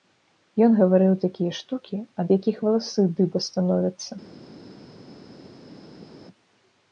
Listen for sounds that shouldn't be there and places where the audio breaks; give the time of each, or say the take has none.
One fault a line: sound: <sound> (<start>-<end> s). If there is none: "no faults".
no faults